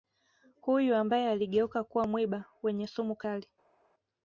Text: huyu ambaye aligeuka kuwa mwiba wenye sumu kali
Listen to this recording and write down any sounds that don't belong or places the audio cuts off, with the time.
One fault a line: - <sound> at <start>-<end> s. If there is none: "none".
none